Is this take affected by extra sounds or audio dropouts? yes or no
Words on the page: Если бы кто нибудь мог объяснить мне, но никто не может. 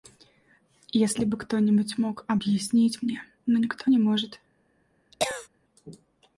yes